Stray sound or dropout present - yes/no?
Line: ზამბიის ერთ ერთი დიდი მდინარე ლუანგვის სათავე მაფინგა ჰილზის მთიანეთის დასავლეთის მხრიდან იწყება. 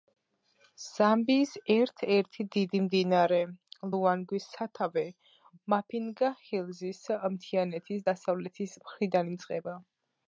no